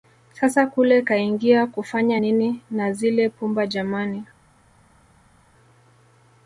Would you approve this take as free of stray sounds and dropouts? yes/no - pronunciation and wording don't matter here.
yes